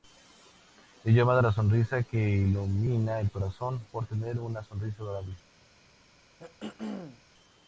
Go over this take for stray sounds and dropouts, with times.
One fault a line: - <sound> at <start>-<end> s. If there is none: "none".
- throat clearing at 6.4-7.2 s